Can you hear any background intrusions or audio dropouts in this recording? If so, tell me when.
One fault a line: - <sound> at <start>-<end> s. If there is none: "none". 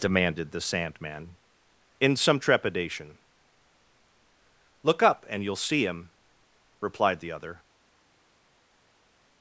none